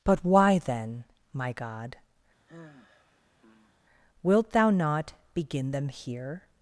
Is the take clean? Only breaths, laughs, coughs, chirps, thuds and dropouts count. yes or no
no